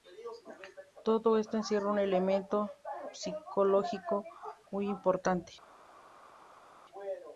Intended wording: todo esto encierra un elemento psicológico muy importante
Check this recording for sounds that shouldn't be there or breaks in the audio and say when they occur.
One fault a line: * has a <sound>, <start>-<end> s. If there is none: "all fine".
all fine